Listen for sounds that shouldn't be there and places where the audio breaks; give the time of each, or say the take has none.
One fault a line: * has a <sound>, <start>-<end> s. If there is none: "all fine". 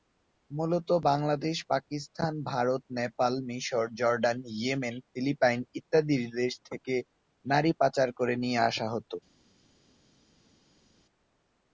all fine